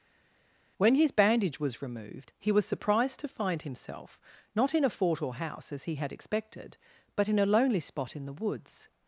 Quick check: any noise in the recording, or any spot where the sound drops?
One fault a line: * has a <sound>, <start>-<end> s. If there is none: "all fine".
all fine